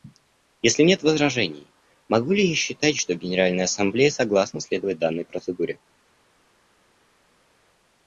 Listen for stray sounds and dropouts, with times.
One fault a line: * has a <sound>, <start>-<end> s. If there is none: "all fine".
all fine